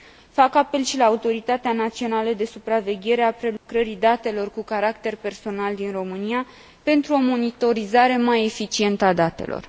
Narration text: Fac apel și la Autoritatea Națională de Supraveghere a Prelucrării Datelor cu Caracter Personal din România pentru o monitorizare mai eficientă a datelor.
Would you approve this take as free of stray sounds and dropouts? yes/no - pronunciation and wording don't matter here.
no